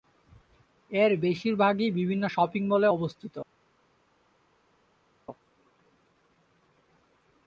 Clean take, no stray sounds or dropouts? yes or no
yes